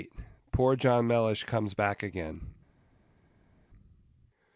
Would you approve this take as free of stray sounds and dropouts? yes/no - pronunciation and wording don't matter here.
yes